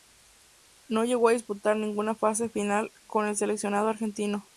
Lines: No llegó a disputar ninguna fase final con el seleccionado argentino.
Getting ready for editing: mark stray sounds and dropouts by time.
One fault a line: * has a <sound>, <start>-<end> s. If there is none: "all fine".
all fine